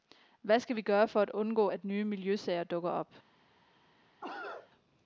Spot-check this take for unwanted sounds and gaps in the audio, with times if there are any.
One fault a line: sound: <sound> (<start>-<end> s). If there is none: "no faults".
sound: cough (4.2-4.7 s)